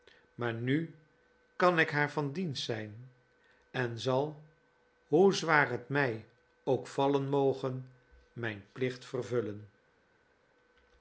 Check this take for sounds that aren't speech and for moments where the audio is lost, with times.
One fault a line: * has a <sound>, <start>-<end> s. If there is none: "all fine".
all fine